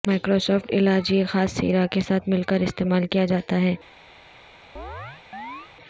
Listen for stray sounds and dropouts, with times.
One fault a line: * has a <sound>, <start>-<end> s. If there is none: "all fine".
* has a chirp, 4.8-5.7 s